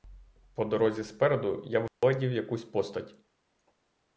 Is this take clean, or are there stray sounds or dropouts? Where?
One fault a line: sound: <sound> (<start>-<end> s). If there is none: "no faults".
sound: dropout (1.9-2.0 s)